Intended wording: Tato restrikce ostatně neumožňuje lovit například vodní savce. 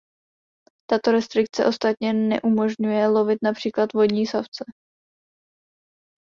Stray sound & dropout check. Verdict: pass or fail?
pass